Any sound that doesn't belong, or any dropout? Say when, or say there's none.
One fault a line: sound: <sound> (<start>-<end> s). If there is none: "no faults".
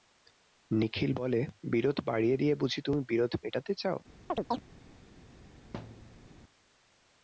sound: chirp (4.3-4.6 s)
sound: thud (5.7-6.3 s)